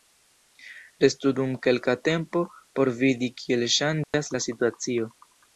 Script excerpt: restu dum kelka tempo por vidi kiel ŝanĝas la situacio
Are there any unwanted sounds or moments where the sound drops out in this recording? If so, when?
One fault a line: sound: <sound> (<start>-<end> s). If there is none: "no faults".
sound: dropout (4.0-4.1 s)